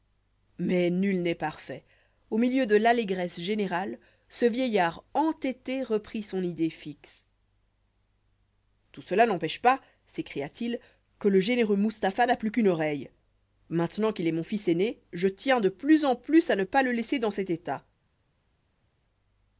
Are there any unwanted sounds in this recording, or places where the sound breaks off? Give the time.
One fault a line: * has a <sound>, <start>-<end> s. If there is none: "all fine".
all fine